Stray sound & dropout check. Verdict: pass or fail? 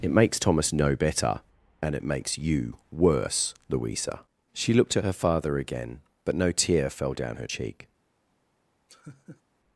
fail